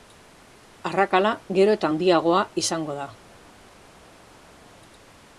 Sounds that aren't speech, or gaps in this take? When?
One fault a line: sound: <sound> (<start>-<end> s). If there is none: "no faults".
no faults